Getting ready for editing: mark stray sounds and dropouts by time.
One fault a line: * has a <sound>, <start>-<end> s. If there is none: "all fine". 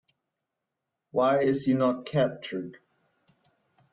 all fine